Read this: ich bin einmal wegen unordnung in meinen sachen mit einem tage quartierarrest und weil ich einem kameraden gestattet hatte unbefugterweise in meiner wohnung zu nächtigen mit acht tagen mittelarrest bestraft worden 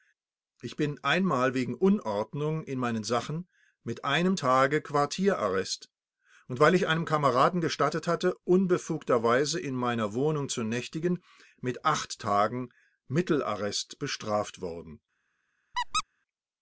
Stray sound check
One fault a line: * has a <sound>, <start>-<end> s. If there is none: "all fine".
* has a squeak, 15.7-16.0 s